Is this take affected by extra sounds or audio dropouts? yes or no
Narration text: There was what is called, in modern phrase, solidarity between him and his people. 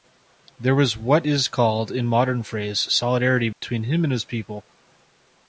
yes